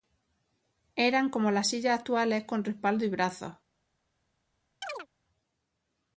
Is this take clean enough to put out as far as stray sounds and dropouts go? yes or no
no